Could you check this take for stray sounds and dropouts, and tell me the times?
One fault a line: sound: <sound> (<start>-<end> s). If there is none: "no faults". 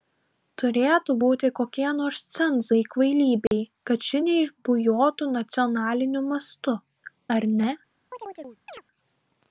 sound: dropout (3.5-3.5 s)
sound: chirp (8.1-8.8 s)